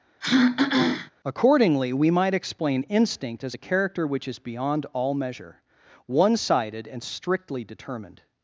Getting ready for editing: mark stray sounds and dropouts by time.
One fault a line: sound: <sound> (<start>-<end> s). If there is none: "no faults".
sound: throat clearing (0.2-1.1 s)